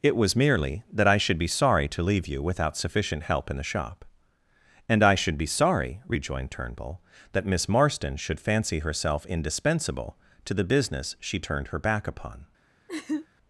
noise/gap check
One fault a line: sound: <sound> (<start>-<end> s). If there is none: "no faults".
sound: laugh (12.9-13.3 s)